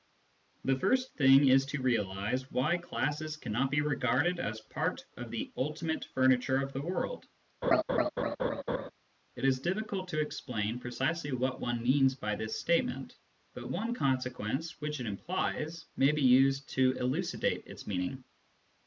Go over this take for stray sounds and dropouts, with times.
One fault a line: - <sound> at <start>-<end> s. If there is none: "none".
- laugh at 7.6-8.9 s